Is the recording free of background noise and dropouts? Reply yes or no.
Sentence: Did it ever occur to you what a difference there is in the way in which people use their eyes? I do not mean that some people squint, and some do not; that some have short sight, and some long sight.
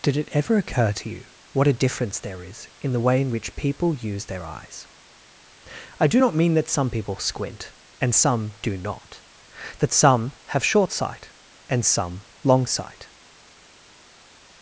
yes